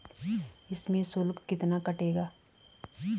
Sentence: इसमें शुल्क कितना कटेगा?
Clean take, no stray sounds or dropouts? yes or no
yes